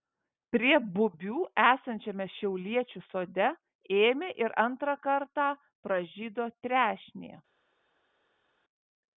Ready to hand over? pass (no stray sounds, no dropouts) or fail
pass